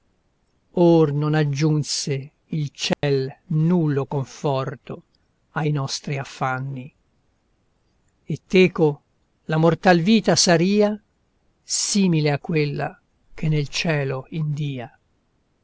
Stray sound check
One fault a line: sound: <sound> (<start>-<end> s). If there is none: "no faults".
sound: dropout (2.9-3.0 s)